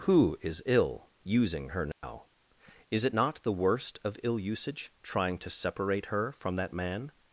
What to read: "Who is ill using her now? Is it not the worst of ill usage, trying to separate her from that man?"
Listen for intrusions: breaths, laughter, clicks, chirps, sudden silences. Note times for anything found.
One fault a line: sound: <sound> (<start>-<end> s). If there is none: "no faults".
sound: dropout (1.9-2.0 s)